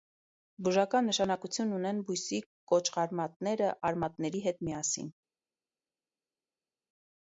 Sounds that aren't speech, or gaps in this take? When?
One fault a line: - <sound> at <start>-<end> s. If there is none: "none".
none